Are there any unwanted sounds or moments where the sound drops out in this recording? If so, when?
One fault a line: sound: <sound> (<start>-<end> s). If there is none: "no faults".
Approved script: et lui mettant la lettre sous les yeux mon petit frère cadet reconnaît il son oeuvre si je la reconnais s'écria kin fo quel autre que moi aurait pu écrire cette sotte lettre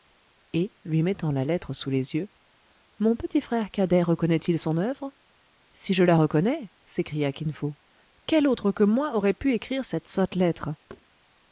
sound: thud (10.9-11.1 s)